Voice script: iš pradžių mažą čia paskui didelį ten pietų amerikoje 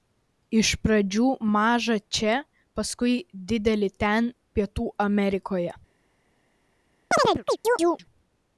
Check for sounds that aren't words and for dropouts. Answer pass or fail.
fail